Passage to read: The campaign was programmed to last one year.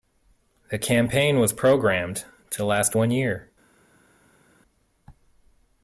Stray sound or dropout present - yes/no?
no